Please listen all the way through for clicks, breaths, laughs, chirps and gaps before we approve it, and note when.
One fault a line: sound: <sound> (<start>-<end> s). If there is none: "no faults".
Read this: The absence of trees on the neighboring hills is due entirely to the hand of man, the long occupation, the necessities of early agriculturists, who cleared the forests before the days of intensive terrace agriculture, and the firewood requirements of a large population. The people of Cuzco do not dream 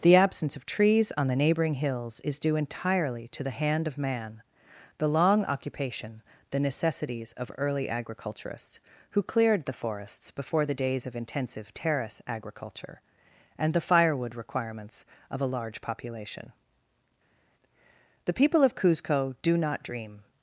no faults